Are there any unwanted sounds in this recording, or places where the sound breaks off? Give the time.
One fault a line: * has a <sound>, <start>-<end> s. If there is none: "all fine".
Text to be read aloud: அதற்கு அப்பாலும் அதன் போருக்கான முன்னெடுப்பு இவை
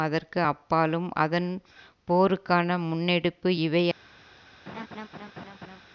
* has a laugh, 4.7-5.8 s